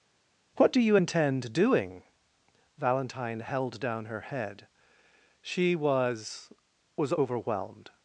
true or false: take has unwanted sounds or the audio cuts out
false